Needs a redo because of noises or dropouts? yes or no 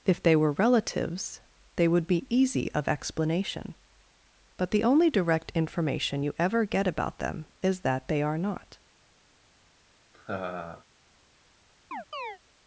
yes